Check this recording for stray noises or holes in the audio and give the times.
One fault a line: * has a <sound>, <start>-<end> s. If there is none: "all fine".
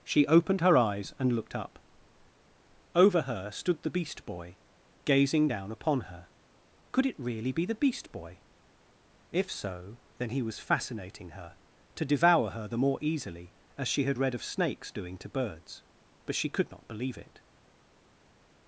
all fine